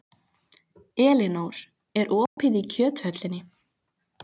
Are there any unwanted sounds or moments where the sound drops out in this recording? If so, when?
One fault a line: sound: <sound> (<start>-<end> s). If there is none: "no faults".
sound: dropout (2.3-2.4 s)